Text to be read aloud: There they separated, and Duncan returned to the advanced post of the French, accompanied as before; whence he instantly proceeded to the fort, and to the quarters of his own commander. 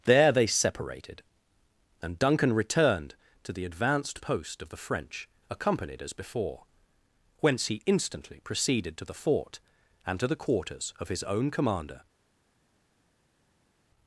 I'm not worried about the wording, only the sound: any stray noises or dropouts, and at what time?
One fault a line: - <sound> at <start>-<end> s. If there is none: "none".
none